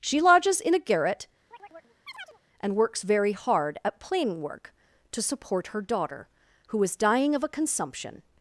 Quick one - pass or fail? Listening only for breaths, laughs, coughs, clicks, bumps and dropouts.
fail